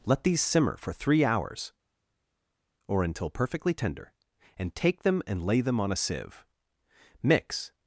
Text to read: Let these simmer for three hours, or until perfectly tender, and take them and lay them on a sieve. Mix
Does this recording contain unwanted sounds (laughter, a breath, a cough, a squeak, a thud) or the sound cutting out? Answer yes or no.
no